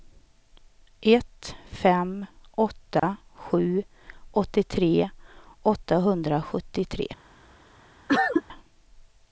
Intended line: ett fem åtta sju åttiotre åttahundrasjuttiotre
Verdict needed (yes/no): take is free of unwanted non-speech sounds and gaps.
no